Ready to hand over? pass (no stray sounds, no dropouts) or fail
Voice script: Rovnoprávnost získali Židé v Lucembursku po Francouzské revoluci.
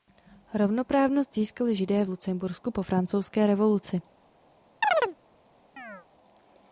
fail